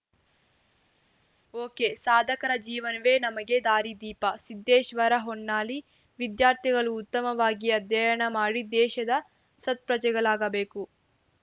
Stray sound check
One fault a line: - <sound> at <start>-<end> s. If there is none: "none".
none